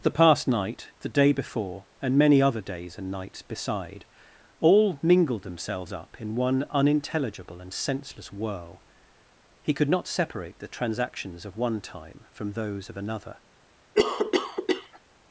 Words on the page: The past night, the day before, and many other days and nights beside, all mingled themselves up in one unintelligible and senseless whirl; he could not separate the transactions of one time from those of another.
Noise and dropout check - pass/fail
fail